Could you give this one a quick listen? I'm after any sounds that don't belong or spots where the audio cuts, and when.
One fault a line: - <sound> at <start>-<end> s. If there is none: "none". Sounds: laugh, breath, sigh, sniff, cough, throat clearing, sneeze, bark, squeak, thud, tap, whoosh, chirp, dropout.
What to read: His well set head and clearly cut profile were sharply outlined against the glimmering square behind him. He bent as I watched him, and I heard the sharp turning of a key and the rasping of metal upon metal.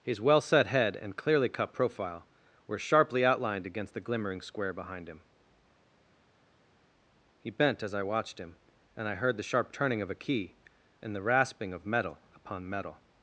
none